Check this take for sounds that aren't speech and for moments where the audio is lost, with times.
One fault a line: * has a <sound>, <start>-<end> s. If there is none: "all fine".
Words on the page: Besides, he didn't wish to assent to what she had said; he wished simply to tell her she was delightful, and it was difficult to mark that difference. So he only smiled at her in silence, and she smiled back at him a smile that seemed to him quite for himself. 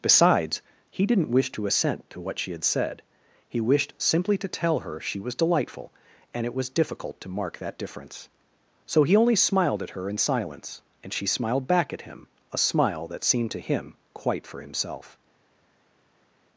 all fine